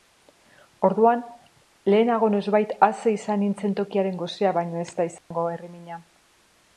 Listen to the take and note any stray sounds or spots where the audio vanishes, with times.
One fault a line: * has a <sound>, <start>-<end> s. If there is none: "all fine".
* has a dropout, 5.2-5.3 s